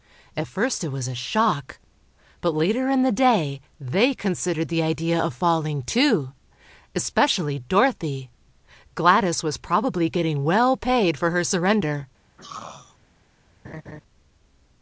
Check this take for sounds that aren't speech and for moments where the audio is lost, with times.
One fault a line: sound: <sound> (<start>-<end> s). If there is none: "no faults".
sound: throat clearing (12.4-13.0 s)
sound: laugh (13.6-14.0 s)